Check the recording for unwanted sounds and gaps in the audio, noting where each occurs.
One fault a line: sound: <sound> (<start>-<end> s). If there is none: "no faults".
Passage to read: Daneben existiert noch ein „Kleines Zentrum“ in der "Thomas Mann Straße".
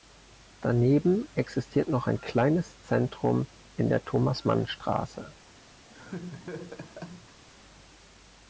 sound: laugh (5.9-7.4 s)